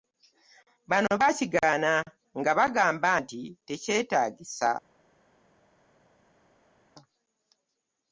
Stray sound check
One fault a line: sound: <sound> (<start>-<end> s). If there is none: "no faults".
no faults